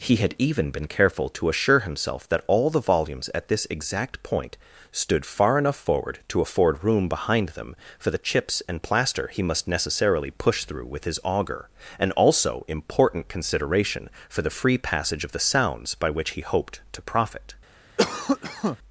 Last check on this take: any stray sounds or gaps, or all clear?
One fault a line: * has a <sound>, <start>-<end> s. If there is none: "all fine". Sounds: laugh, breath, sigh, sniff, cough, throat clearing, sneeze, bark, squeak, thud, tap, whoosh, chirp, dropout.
* has a cough, 18.0-18.8 s